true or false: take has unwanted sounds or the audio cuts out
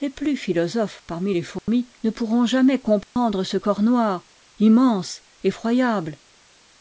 true